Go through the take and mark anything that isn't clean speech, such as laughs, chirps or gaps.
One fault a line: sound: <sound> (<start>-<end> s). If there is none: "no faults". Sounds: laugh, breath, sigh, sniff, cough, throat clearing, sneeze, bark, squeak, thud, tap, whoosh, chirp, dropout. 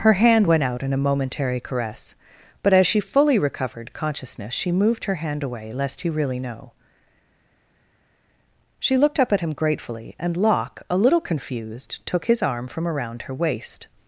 no faults